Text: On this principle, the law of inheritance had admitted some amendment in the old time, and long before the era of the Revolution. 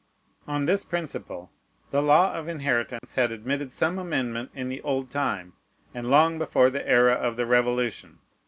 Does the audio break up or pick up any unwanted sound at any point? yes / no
yes